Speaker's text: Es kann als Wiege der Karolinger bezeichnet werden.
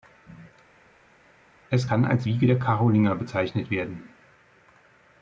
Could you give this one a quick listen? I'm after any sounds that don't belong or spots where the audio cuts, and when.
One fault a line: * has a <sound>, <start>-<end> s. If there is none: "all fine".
all fine